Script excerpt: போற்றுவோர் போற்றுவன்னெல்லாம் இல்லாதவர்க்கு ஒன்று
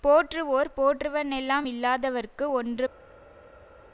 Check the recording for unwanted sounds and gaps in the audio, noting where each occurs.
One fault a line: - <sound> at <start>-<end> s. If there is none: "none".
none